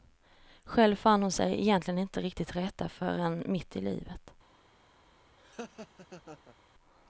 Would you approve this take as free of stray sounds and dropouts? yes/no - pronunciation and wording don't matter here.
no